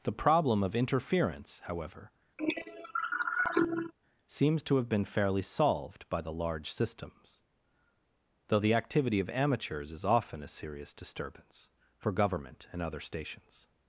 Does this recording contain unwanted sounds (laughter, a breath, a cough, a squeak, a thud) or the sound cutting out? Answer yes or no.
yes